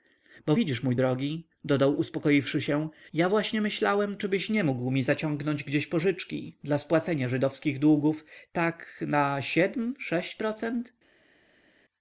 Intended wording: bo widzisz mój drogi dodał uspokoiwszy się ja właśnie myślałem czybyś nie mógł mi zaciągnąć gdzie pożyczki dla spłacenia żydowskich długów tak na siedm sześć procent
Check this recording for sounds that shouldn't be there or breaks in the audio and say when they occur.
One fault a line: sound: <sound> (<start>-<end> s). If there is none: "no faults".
no faults